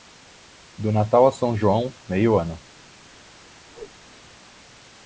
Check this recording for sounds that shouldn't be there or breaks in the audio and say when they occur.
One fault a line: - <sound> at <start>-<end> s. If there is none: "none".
- whoosh at 3.7-4.0 s